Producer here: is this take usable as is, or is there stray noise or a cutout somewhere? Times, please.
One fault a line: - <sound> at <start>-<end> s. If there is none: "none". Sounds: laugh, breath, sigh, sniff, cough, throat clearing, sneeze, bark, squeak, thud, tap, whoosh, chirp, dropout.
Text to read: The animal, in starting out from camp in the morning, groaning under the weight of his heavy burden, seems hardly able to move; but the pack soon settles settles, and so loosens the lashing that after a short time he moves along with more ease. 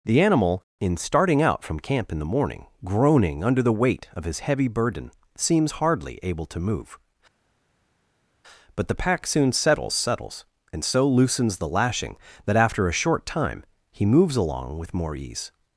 none